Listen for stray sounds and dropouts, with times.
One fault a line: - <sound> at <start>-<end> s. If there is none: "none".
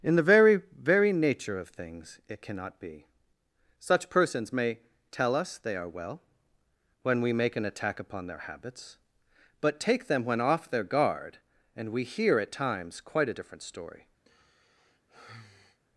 - sigh at 14.2-15.8 s